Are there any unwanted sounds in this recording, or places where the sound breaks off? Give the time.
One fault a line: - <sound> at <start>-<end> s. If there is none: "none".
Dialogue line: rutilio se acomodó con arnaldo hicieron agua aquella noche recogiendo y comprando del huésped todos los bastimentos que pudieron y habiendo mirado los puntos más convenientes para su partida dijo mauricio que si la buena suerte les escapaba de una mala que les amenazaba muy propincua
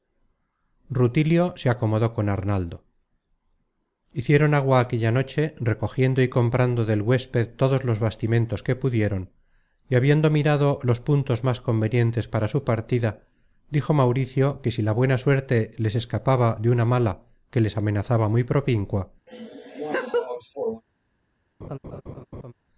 - laugh at 19.3-20.8 s
- laugh at 21.6-22.5 s